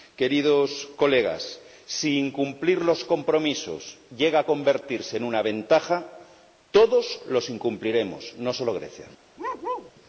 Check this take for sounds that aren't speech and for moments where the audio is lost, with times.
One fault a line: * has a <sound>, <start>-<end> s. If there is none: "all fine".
* has a bark, 9.4-9.9 s